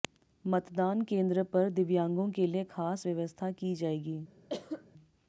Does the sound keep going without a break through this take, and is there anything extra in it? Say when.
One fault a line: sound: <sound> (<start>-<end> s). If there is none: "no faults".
sound: cough (4.5-4.9 s)